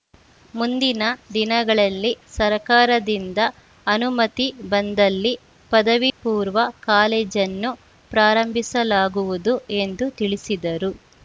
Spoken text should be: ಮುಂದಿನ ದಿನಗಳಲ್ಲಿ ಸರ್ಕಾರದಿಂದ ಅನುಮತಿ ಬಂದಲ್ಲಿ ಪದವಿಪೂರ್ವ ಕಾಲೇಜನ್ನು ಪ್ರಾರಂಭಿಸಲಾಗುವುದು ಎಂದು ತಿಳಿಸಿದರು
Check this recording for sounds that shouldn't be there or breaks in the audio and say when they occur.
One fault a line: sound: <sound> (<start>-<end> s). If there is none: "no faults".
sound: dropout (6.1-6.2 s)